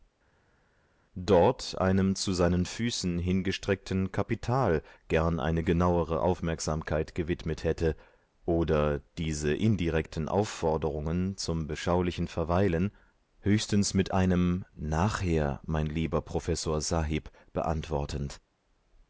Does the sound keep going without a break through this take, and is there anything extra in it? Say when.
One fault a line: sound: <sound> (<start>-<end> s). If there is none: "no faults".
no faults